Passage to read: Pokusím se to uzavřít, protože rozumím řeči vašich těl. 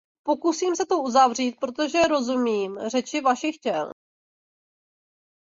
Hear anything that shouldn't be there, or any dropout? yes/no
no